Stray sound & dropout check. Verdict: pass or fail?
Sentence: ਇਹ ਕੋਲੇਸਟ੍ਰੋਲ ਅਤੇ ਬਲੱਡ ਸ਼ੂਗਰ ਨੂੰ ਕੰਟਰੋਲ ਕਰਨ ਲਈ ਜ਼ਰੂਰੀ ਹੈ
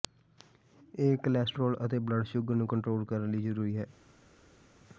pass